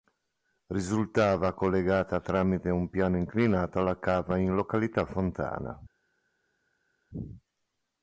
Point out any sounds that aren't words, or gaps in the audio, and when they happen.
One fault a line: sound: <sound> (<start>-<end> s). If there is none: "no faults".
no faults